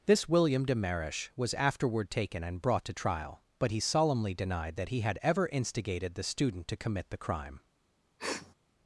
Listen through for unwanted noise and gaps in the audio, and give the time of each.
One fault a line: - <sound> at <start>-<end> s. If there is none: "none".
- sniff at 8.2-8.5 s